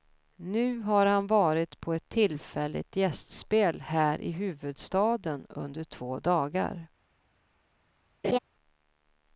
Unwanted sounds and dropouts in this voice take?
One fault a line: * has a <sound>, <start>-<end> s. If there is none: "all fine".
* has a laugh, 8.2-8.4 s